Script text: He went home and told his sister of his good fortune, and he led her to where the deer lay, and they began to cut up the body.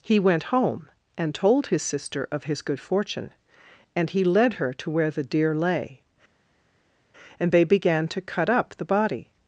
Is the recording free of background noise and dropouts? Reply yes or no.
yes